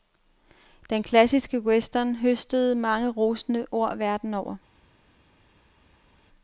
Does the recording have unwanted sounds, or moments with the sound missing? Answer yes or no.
no